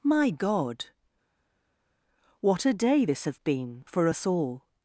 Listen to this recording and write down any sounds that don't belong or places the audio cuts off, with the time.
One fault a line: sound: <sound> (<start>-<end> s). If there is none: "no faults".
no faults